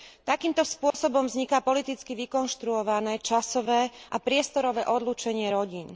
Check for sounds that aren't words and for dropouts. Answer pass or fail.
fail